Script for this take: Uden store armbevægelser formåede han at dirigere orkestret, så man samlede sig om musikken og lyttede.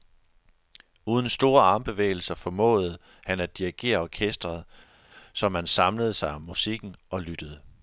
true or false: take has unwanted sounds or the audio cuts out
false